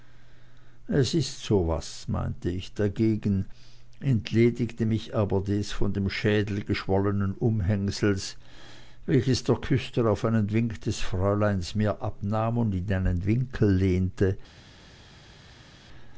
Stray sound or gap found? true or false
false